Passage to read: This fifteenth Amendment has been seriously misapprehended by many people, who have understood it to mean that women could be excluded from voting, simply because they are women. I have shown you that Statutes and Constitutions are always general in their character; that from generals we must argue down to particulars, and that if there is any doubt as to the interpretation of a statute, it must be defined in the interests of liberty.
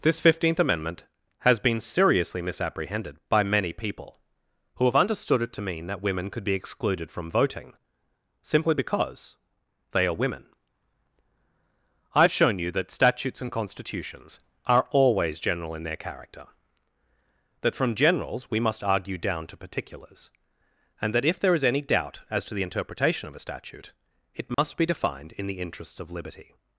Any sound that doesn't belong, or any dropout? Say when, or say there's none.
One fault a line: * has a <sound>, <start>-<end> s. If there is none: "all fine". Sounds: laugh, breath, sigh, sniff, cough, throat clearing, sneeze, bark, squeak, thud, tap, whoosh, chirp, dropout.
* has a dropout, 24.5-24.6 s